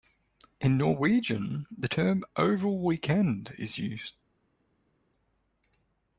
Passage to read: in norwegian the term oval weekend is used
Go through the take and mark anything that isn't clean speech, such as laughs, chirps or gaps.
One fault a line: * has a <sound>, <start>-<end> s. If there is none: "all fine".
all fine